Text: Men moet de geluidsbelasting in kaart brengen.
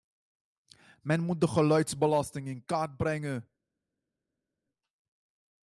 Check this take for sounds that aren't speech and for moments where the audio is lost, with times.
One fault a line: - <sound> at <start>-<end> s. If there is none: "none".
none